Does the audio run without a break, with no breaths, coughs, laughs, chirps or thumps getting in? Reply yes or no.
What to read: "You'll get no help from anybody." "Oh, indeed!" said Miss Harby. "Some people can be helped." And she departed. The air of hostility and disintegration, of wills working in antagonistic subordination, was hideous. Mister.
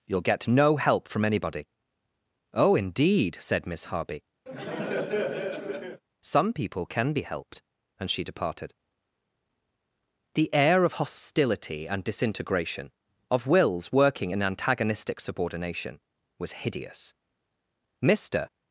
no